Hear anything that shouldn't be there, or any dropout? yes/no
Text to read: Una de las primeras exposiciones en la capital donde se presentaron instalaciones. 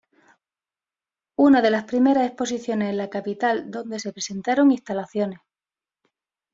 no